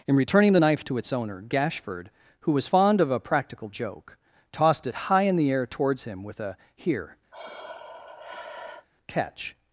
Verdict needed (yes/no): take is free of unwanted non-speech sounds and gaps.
no